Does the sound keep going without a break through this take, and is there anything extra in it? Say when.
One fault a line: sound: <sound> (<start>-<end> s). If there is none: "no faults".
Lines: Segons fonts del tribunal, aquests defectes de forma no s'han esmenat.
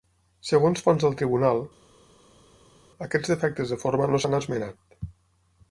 no faults